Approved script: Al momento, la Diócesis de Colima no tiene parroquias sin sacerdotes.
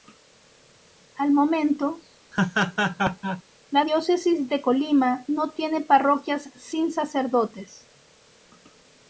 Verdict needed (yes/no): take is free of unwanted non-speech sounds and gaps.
no